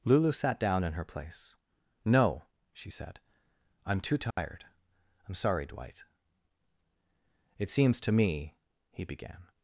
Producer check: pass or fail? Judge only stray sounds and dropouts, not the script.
fail